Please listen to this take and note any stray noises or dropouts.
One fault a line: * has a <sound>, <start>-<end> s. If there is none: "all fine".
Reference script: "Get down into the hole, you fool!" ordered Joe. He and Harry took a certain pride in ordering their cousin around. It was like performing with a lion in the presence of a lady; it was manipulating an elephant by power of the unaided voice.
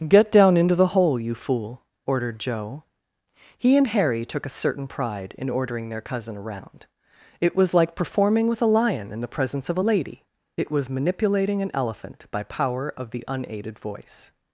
all fine